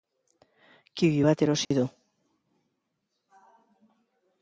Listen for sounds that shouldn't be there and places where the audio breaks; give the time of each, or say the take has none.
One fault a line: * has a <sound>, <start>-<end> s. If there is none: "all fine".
* has a dropout, 1.6-1.7 s